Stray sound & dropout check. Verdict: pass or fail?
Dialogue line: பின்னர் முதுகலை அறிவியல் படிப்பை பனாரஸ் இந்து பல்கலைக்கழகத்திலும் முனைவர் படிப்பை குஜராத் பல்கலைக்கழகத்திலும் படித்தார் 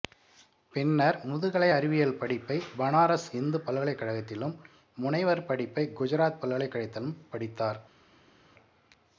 pass